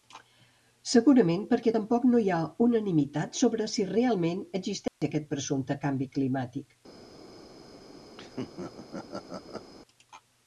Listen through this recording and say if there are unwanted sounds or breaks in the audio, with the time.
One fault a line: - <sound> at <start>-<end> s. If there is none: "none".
- dropout at 4.9-5.0 s
- laugh at 8.2-9.7 s